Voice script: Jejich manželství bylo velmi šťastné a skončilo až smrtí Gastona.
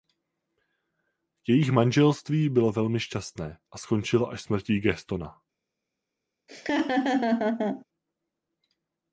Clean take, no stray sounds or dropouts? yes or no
no